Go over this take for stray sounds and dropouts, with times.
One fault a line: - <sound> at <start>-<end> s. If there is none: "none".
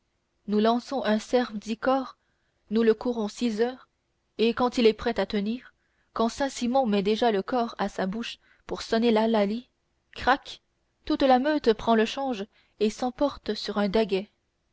none